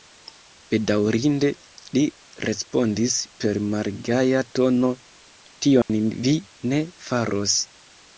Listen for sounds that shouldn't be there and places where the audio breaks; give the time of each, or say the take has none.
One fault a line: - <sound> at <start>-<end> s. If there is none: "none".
- dropout at 5.8-5.9 s